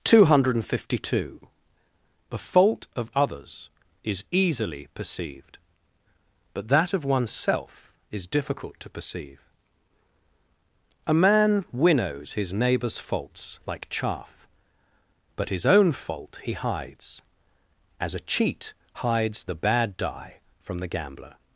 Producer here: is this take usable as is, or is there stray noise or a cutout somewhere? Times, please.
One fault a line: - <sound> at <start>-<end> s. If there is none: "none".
none